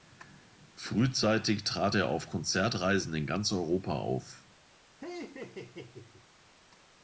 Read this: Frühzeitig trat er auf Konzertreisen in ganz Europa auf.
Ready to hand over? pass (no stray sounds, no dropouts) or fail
fail